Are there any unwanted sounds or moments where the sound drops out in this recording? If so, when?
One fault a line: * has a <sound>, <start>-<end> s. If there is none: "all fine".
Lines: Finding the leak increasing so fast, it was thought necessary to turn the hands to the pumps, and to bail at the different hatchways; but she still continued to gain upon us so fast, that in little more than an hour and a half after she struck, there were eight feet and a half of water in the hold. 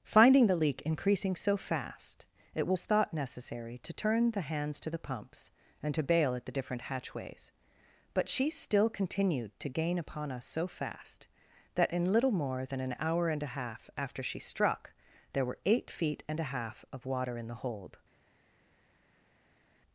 all fine